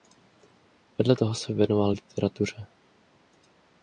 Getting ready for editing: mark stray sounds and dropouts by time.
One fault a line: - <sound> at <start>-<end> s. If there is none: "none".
none